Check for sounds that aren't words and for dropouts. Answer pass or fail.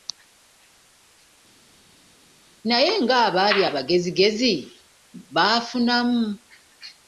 pass